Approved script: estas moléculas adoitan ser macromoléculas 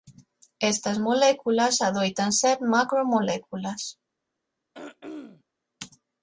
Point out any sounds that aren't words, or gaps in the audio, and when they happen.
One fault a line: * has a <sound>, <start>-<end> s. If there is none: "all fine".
* has a throat clearing, 4.7-5.4 s